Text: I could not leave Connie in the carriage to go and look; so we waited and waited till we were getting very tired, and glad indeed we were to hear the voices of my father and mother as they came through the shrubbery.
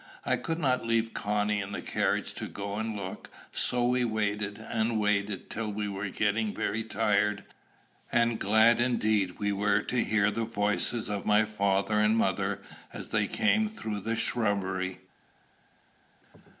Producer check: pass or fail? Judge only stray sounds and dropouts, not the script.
pass